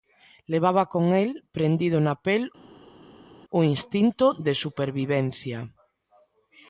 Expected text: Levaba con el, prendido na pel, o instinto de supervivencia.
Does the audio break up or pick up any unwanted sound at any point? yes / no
no